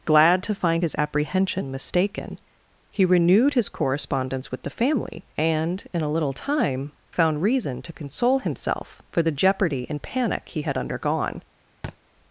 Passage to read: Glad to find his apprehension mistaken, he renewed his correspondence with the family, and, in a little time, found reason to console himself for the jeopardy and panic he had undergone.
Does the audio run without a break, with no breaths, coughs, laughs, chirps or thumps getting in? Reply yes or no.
no